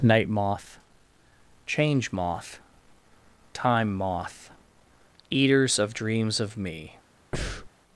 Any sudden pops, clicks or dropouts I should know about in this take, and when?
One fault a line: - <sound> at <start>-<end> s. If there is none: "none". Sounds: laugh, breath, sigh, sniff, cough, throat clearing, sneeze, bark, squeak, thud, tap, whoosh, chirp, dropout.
- breath at 7.3-7.7 s